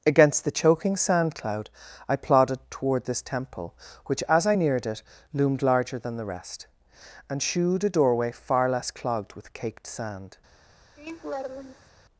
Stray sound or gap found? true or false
true